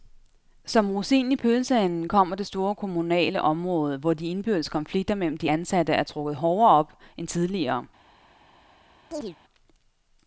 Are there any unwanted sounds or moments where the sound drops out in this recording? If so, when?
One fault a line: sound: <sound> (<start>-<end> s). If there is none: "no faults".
sound: chirp (9.1-9.4 s)